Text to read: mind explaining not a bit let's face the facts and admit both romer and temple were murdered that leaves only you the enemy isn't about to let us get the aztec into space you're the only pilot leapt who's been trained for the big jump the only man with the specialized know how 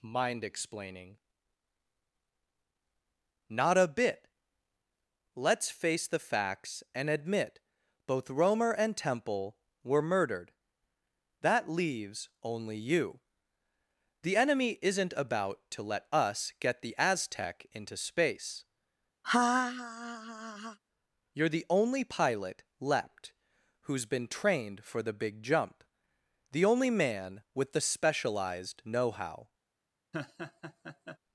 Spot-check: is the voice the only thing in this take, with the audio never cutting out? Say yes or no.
no